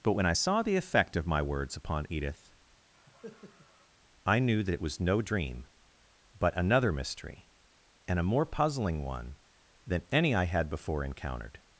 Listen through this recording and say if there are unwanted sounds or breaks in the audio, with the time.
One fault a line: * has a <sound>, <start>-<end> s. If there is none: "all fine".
* has a cough, 2.9-3.9 s